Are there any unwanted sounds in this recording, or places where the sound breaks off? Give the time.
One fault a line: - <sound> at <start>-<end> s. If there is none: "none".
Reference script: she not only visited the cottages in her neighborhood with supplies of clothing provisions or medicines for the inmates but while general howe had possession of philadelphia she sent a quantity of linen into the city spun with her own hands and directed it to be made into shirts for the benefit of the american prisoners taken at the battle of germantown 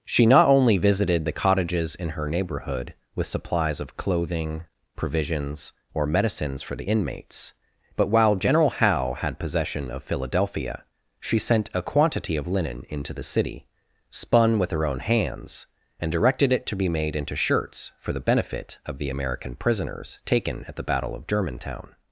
none